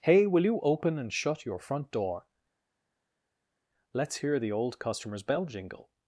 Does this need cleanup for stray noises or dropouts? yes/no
no